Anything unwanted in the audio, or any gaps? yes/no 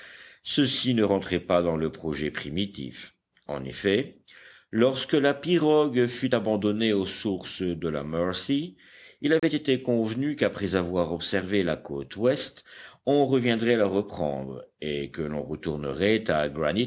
yes